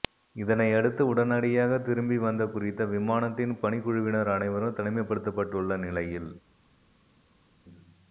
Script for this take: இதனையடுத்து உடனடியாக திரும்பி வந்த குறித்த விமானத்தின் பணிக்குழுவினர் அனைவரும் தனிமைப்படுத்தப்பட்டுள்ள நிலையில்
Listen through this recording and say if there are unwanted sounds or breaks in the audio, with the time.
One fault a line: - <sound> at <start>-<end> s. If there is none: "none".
none